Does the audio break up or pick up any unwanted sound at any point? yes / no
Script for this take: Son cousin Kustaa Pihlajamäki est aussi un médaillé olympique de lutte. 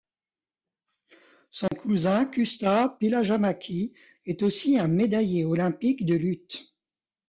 yes